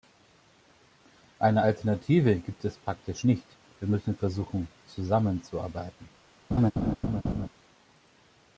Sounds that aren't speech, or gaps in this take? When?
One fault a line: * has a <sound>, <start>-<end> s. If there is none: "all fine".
* has a laugh, 6.5-7.5 s